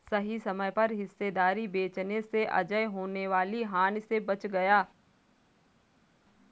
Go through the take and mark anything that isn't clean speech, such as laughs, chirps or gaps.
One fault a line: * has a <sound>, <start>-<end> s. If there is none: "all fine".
all fine